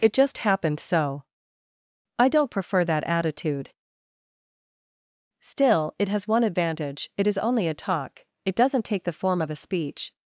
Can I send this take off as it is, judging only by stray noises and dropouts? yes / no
yes